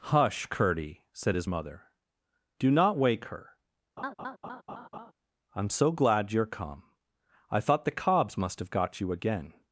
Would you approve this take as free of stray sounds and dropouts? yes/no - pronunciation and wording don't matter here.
no